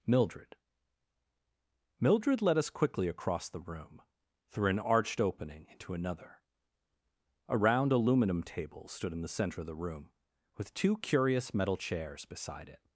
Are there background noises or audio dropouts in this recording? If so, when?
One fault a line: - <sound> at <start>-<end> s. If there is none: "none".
none